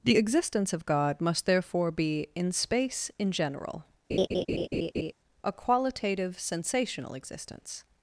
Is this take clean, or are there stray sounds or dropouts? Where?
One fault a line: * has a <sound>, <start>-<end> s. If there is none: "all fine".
* has a laugh, 4.1-5.1 s